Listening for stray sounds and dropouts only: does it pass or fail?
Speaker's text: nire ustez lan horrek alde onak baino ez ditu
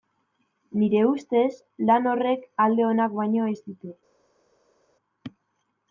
pass